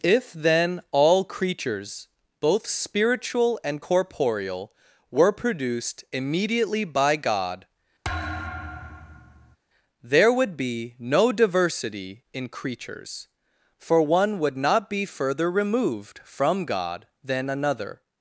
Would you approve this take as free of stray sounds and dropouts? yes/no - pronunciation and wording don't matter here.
no